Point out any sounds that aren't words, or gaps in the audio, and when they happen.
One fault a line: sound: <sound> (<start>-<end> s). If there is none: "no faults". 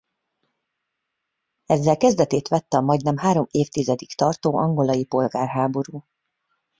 no faults